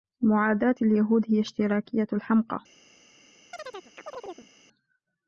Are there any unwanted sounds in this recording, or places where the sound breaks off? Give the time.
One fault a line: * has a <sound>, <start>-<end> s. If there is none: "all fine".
* has a chirp, 3.5-4.5 s